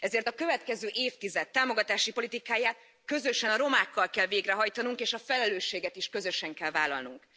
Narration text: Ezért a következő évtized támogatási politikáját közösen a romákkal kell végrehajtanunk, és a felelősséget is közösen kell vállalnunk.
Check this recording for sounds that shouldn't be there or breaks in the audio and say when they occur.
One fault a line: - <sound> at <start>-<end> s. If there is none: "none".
none